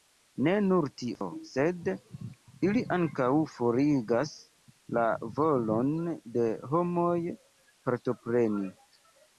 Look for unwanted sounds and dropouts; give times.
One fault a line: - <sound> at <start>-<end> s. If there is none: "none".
- dropout at 1.2-1.2 s